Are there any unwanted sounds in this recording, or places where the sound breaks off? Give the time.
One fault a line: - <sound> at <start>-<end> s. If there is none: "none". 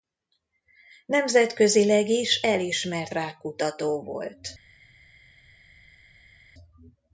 none